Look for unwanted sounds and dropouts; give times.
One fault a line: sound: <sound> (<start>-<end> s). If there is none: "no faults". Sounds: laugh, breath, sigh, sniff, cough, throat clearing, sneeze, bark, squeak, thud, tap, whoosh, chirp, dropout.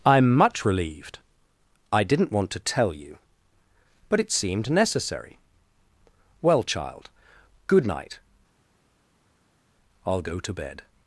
no faults